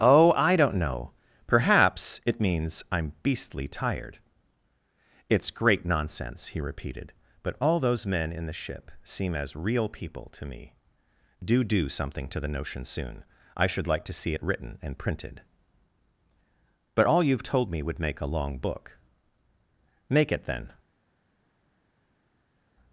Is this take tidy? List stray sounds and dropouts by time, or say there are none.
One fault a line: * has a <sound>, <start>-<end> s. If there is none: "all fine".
all fine